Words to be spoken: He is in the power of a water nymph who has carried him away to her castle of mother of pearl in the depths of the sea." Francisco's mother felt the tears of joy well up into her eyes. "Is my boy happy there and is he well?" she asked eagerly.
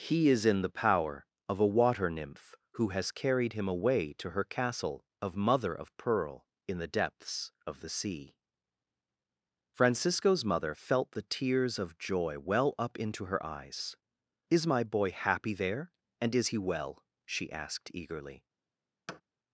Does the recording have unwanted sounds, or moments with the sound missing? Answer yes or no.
yes